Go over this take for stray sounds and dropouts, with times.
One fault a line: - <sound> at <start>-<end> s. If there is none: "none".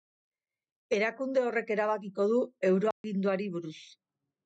- dropout at 2.9-3.0 s